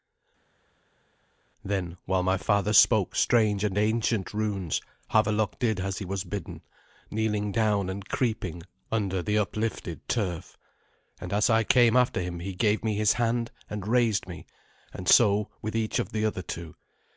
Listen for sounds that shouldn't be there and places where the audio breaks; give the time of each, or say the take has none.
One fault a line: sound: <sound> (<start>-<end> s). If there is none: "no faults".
no faults